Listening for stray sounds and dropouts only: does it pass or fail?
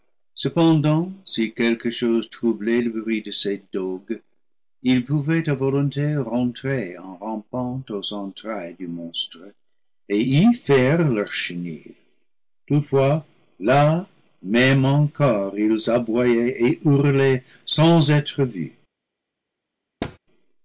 fail